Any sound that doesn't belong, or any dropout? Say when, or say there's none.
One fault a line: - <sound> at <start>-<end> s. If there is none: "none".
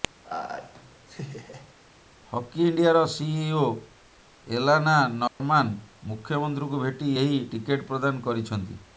- laugh at 0.2-1.7 s
- dropout at 5.3-5.4 s